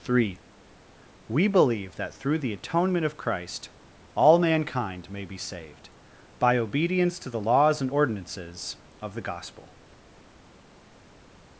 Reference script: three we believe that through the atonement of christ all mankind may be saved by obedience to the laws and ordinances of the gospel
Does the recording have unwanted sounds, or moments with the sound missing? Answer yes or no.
no